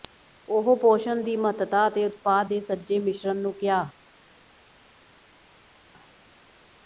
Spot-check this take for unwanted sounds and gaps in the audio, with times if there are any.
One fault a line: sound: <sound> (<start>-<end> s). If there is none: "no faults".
no faults